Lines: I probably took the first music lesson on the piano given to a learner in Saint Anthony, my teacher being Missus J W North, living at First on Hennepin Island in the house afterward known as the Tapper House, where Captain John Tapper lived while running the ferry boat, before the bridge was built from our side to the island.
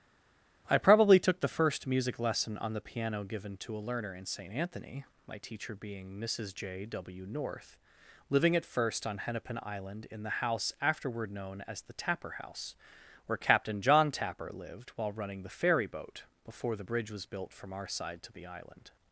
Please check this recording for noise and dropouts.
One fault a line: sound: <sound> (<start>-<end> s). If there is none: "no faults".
no faults